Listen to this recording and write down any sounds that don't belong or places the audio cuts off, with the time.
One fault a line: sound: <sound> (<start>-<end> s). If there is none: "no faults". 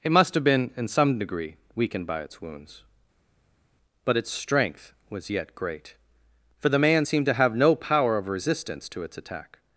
no faults